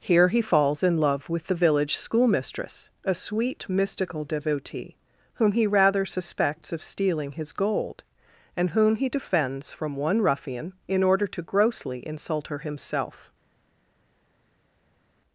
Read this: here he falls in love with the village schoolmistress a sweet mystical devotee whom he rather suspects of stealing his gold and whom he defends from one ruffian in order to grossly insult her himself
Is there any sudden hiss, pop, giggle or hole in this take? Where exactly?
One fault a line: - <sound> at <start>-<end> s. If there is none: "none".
none